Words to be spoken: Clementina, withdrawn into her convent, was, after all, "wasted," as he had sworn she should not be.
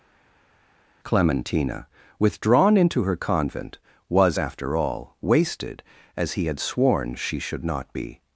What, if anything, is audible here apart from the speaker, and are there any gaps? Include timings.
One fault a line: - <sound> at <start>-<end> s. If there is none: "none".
none